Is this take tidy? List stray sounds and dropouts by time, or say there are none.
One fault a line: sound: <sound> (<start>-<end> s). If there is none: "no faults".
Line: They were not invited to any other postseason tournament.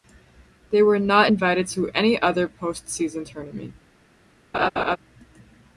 sound: laugh (4.5-5.0 s)